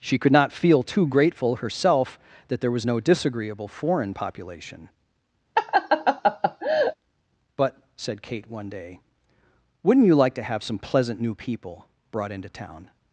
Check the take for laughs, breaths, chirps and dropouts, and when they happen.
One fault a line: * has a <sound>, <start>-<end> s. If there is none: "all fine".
* has a laugh, 5.6-7.0 s